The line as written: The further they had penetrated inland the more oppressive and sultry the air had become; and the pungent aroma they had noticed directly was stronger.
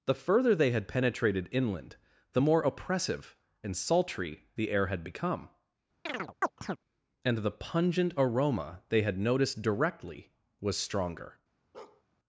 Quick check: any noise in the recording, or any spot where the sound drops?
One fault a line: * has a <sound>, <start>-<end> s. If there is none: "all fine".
* has a chirp, 6.1-6.8 s
* has a bark, 11.7-12.0 s